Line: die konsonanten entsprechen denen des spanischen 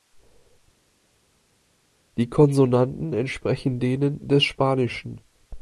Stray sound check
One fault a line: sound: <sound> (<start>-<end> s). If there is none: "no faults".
no faults